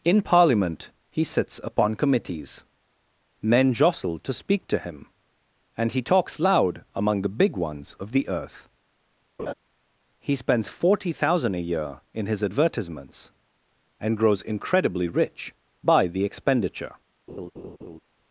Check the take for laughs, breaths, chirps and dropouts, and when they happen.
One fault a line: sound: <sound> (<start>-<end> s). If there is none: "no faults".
sound: laugh (9.4-9.5 s)
sound: laugh (17.3-18.0 s)